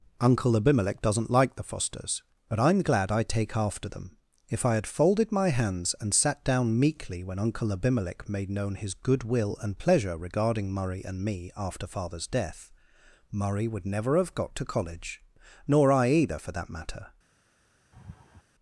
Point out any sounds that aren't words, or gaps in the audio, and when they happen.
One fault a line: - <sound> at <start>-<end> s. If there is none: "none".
- laugh at 17.9-18.4 s